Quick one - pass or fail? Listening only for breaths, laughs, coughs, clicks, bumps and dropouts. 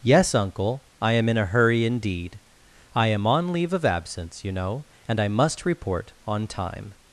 pass